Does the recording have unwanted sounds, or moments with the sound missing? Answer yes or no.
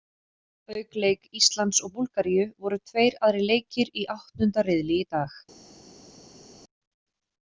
no